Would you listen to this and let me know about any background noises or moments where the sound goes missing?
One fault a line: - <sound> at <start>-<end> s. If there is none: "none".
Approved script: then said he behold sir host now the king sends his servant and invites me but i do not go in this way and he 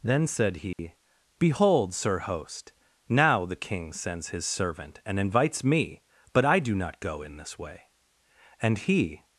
- dropout at 0.7-0.8 s